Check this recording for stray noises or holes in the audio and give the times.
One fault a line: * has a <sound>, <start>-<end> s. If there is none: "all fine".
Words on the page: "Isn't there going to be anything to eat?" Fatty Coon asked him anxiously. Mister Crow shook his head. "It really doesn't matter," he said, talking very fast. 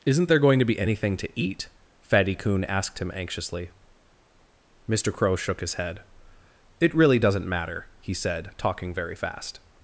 all fine